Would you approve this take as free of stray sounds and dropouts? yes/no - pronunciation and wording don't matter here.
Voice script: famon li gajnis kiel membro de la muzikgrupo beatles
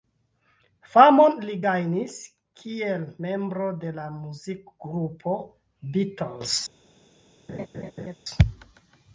no